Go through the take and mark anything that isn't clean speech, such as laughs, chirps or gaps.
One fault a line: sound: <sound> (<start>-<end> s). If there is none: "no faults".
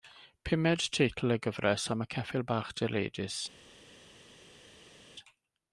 no faults